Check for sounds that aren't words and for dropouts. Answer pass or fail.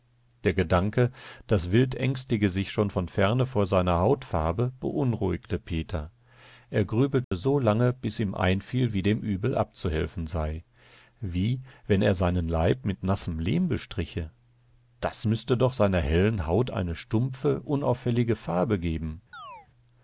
fail